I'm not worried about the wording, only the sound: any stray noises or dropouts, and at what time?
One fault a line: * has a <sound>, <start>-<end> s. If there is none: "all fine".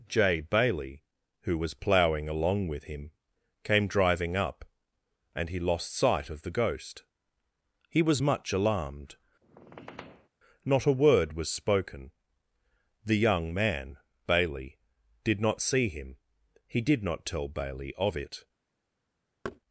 * has a squeak, 9.4-10.3 s
* has a thud, 19.4-19.6 s